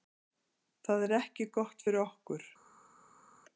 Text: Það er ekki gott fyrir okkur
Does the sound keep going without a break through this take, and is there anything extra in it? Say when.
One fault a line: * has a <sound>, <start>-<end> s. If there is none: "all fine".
all fine